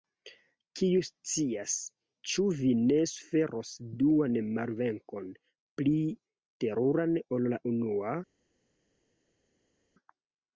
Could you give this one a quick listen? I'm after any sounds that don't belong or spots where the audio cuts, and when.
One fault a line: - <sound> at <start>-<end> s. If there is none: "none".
none